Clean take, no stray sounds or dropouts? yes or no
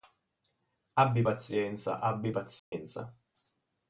no